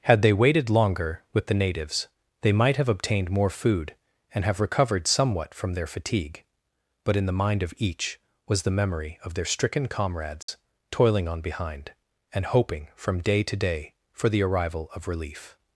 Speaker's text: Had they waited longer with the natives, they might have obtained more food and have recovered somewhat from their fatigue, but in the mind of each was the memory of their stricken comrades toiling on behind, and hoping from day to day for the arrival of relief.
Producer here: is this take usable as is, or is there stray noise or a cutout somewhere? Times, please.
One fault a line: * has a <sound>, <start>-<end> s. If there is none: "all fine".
* has a dropout, 10.4-10.5 s